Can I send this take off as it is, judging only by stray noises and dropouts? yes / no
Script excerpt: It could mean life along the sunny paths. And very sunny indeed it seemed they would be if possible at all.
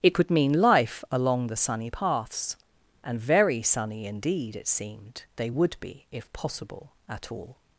yes